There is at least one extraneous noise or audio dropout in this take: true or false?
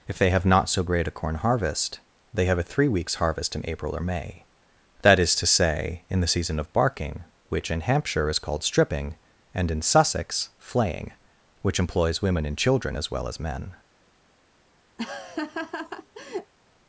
true